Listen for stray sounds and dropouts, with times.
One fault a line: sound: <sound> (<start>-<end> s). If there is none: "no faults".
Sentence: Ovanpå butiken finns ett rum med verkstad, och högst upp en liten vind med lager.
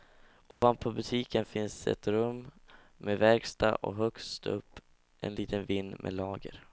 sound: dropout (0.5-0.6 s)